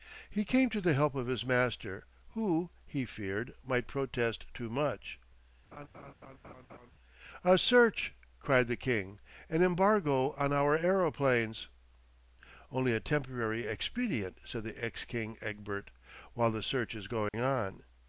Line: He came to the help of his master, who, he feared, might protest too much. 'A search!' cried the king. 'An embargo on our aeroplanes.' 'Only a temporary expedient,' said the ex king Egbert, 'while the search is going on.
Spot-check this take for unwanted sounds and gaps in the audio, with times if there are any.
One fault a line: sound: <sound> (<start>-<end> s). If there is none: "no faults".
sound: laugh (5.7-6.9 s)
sound: dropout (17.3-17.3 s)